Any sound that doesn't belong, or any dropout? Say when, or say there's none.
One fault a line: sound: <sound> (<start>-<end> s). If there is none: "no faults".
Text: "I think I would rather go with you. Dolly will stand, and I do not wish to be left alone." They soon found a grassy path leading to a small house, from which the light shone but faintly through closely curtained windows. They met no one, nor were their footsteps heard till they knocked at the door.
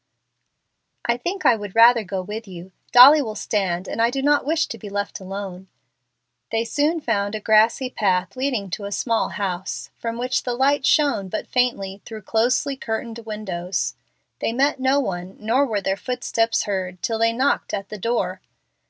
no faults